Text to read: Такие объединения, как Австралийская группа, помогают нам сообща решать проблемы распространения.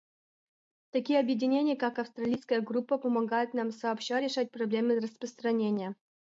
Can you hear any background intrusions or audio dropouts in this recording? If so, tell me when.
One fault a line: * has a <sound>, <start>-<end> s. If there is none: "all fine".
all fine